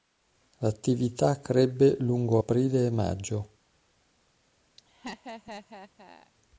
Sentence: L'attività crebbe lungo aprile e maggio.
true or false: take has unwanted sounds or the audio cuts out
true